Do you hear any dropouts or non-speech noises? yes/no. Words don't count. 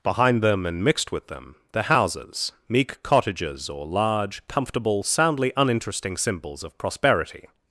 no